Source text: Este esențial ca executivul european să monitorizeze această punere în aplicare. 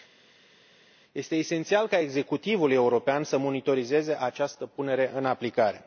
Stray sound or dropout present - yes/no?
no